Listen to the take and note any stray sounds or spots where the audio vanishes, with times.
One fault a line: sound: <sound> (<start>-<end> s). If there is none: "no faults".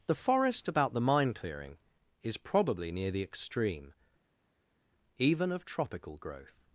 no faults